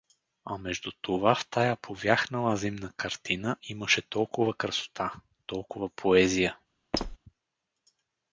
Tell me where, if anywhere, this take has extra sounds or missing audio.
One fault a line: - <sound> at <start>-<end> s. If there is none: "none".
- squeak at 6.9-7.2 s